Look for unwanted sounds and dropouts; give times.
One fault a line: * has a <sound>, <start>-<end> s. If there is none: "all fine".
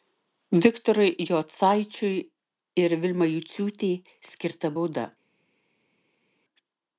all fine